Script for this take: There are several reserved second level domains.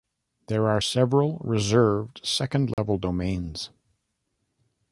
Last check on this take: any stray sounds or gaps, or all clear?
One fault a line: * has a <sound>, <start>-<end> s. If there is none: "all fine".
* has a dropout, 2.7-2.8 s